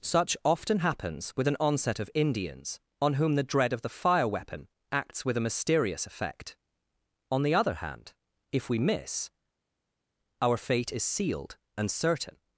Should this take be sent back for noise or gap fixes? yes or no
no